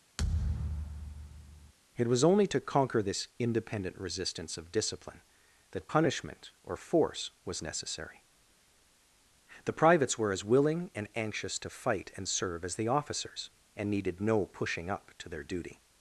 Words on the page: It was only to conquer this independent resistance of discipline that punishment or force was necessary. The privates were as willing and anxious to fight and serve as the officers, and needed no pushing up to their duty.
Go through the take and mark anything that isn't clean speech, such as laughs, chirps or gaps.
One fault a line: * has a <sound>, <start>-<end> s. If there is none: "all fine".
* has a thud, 0.2-1.7 s